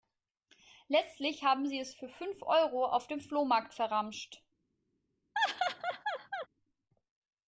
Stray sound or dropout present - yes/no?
yes